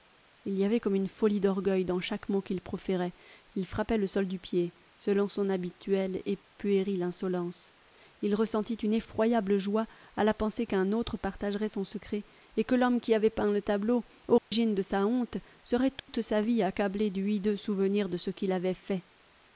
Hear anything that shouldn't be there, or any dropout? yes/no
yes